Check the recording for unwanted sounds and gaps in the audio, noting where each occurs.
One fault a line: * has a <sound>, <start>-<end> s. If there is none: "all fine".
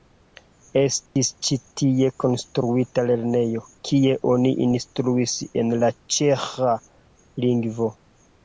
* has a dropout, 1.1-1.2 s